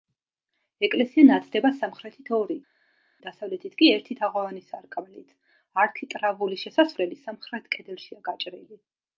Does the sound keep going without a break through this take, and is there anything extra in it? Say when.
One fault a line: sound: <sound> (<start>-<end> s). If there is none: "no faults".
no faults